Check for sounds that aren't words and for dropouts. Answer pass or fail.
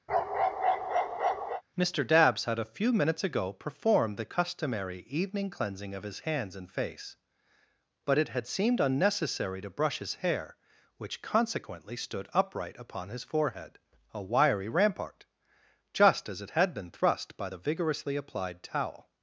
fail